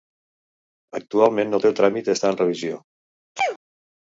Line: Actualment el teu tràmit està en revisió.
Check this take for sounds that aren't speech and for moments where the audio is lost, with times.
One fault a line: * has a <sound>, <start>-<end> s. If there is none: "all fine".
* has a sneeze, 3.4-3.6 s